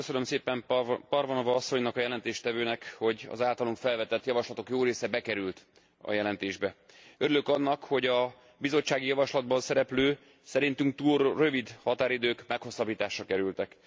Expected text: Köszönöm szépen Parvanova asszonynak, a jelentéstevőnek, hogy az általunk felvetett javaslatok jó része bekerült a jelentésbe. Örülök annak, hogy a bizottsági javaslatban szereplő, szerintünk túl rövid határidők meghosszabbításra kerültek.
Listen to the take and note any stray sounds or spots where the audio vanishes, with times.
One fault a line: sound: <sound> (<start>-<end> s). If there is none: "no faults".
no faults